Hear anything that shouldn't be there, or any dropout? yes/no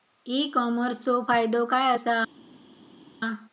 no